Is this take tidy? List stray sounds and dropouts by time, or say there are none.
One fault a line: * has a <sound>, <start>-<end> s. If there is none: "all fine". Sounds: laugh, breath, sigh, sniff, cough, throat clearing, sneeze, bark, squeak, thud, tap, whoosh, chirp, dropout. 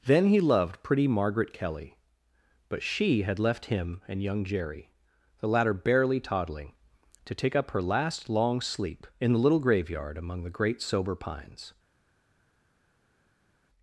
all fine